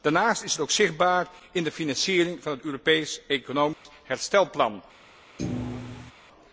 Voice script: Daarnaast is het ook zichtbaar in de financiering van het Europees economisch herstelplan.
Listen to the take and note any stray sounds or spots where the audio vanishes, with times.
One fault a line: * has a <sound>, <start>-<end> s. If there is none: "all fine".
* has a dropout, 3.7-3.9 s
* has a thud, 5.4-6.1 s